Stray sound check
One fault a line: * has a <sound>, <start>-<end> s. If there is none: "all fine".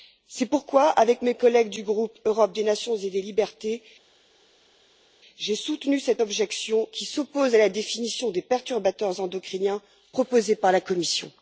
all fine